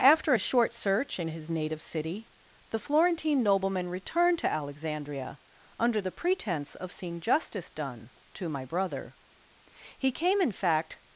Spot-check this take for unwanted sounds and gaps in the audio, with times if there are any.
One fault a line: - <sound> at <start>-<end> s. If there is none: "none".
none